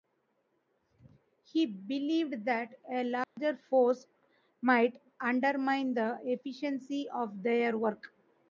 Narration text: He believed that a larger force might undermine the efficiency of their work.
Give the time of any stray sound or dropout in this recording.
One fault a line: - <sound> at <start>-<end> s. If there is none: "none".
- dropout at 3.2-3.4 s